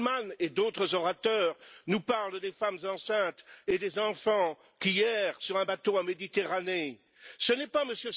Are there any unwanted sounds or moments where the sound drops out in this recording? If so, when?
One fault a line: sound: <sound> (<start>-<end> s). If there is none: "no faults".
no faults